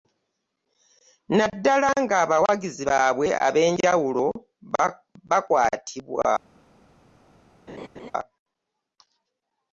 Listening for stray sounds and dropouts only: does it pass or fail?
fail